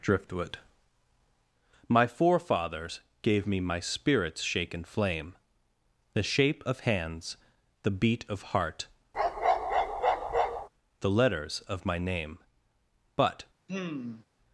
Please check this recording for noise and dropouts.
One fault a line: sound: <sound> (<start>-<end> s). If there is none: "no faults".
sound: bark (9.1-10.7 s)
sound: sigh (13.7-14.3 s)